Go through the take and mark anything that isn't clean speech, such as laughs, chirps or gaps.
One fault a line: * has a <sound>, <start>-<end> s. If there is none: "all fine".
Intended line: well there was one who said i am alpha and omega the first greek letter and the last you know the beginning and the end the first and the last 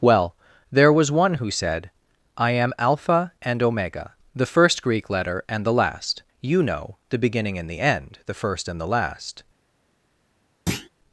* has a thud, 10.7-10.9 s